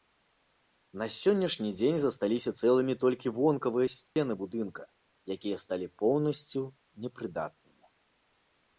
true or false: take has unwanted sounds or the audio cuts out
true